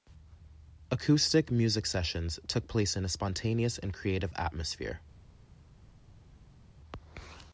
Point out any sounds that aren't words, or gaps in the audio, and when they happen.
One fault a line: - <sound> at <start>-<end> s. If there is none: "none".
none